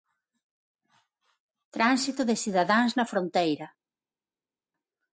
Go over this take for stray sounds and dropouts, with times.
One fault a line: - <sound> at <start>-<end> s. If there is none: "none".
none